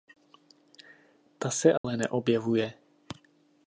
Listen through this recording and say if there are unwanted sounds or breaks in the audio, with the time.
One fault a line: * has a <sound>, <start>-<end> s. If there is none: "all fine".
* has a dropout, 1.8-1.8 s